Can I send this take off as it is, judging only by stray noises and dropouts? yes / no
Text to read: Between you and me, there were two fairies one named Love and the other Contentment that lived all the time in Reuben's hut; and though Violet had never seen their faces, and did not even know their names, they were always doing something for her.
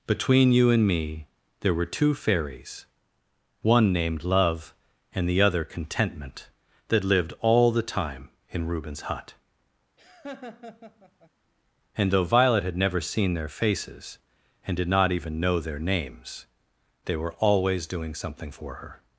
no